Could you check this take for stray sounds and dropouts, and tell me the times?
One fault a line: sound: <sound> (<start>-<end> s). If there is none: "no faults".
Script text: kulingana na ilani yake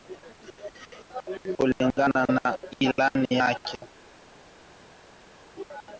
no faults